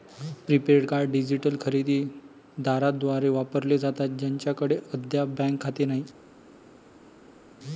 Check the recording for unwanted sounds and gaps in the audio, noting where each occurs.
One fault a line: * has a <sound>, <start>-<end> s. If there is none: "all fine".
all fine